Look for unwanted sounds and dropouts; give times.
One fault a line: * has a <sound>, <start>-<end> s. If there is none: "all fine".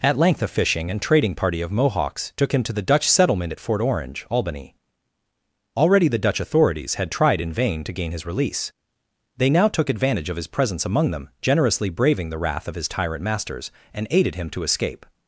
all fine